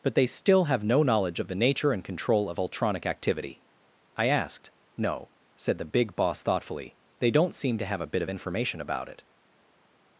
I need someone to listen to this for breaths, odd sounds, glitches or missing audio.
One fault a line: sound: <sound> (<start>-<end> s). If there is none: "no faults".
no faults